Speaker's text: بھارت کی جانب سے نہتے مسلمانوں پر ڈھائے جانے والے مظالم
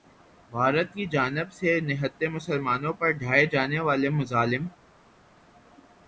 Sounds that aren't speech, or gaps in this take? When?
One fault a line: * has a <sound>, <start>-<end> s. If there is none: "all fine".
all fine